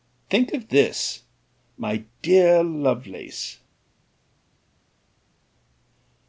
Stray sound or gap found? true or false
false